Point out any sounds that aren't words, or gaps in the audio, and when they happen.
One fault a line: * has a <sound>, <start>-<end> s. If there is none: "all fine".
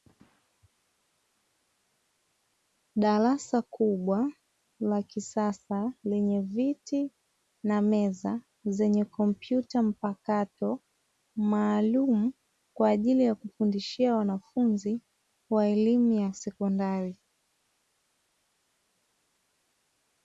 all fine